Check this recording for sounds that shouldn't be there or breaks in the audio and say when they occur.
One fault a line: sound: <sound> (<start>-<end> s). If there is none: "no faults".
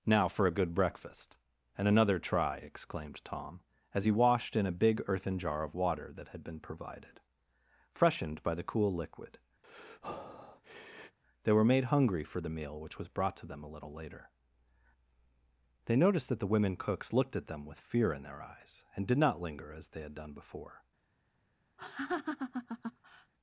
sound: breath (9.6-11.2 s)
sound: laugh (21.8-23.3 s)